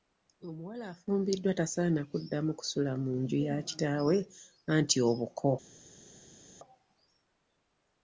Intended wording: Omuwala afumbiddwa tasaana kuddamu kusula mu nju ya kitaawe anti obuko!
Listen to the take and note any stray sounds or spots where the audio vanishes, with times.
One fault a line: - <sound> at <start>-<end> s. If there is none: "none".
none